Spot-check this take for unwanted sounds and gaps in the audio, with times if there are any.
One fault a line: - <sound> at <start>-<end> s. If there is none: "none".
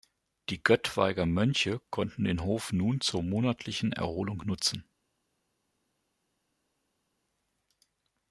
none